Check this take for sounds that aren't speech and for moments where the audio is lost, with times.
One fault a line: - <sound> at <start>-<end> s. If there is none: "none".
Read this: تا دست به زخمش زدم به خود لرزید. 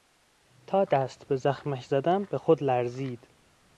none